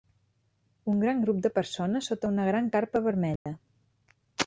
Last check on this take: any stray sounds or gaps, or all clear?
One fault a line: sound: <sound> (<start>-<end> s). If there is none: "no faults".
sound: dropout (3.4-3.5 s)